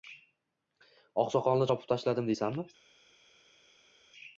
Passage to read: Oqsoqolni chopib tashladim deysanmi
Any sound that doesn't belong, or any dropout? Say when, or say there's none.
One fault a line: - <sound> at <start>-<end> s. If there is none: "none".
none